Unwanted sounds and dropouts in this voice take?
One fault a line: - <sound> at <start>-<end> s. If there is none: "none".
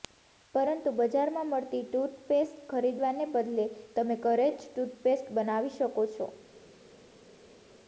none